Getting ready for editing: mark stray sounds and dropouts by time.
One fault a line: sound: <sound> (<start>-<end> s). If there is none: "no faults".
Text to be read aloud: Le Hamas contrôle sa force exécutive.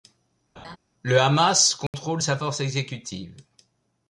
sound: laugh (0.6-0.8 s)
sound: dropout (1.9-1.9 s)